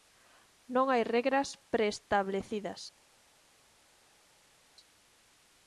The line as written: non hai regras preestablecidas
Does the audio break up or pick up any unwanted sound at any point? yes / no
no